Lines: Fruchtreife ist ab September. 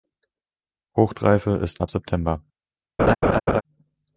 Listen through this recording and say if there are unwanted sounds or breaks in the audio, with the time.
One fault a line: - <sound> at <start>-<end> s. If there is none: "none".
- laugh at 3.0-3.6 s